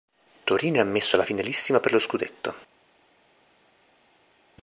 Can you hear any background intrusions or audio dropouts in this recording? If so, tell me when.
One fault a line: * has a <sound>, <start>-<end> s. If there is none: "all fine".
all fine